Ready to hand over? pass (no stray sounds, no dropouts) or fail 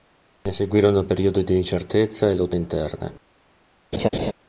fail